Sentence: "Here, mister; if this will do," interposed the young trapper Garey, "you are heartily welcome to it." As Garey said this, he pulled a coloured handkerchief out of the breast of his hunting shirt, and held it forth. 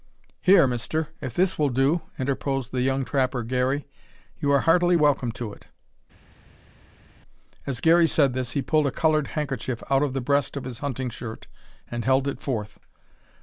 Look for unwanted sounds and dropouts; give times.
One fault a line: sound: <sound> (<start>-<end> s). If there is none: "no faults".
no faults